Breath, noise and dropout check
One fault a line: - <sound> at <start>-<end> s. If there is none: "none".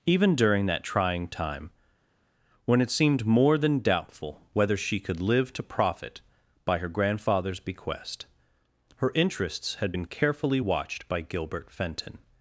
none